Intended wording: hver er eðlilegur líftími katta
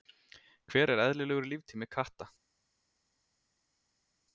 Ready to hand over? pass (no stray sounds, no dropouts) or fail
pass